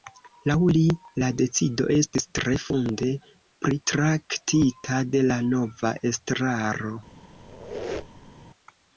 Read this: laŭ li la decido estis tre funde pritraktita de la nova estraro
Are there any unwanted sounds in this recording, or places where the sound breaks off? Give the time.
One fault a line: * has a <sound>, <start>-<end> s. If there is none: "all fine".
* has a squeak, 7.3-8.5 s